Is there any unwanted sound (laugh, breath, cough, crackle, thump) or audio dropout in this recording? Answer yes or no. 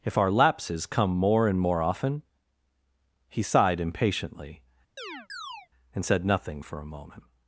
yes